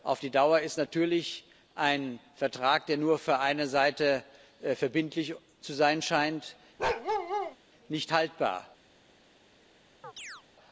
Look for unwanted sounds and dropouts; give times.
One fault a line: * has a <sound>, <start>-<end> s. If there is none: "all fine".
* has a bark, 6.8-7.6 s
* has a chirp, 10.0-10.4 s